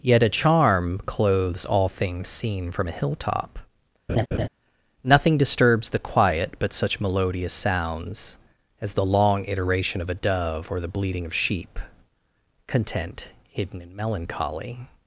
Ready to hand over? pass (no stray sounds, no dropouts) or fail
fail